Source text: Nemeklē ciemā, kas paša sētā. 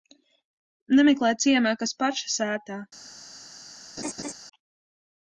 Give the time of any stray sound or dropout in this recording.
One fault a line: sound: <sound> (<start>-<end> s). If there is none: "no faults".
sound: laugh (4.0-4.3 s)